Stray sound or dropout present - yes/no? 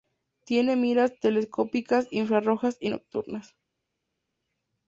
no